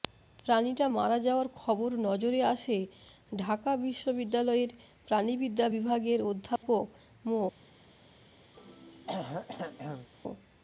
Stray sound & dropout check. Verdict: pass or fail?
fail